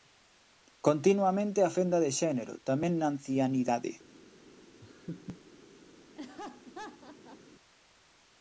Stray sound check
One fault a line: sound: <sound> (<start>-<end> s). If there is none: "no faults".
sound: laugh (4.8-5.4 s)
sound: laugh (6.2-7.4 s)